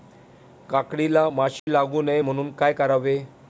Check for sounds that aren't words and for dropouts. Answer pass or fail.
fail